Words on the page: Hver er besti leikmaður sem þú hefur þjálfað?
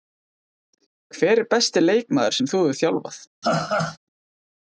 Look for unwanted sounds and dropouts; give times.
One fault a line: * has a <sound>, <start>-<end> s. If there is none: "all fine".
* has a laugh, 3.4-4.0 s